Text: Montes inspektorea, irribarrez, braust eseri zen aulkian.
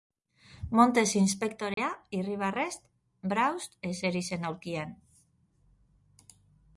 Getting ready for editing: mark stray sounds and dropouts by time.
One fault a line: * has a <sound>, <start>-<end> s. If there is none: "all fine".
* has a dropout, 1.7-1.8 s